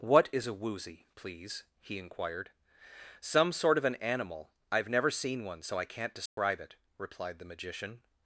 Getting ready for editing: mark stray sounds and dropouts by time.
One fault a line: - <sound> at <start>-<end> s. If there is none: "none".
- dropout at 6.3-6.4 s